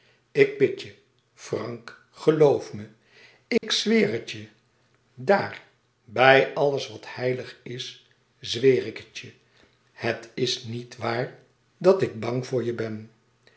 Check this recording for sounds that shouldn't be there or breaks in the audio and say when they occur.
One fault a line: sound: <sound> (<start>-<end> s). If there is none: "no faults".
sound: dropout (3.6-3.6 s)